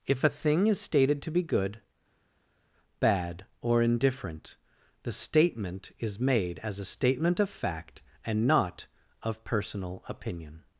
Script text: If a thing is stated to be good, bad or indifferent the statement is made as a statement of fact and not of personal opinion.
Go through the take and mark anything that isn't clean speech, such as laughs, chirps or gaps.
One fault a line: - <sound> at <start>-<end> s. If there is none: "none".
none